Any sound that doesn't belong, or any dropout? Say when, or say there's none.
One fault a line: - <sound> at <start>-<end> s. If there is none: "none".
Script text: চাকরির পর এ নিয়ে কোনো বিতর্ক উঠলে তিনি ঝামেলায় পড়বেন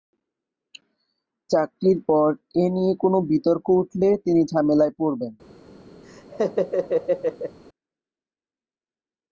- laugh at 6.0-7.6 s